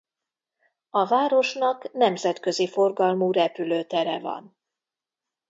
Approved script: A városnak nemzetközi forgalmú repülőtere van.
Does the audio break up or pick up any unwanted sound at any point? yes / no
no